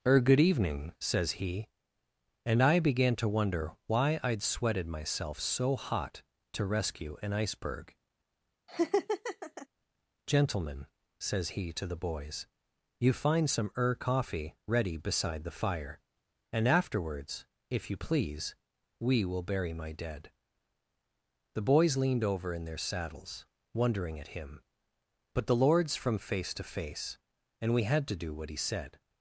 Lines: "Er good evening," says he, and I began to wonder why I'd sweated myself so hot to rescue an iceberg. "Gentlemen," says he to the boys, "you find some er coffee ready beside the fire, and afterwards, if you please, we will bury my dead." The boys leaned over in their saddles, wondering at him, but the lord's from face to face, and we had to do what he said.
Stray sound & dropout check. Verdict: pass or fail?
fail